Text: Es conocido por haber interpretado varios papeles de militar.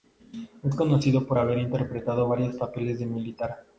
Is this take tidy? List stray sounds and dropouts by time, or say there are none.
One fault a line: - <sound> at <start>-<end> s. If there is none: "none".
none